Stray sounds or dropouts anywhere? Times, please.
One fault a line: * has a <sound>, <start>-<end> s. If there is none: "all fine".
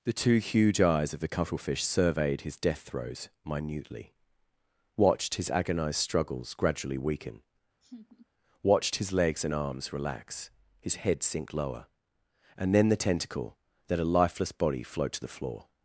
* has a laugh, 7.8-8.3 s